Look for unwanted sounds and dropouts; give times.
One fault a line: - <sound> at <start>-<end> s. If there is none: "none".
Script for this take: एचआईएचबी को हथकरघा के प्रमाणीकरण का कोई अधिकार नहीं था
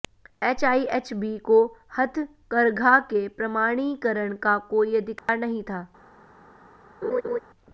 - dropout at 5.2-5.3 s
- laugh at 7.0-7.4 s